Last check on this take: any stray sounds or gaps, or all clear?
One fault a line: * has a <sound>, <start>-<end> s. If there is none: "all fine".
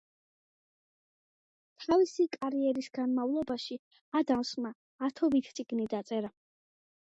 all fine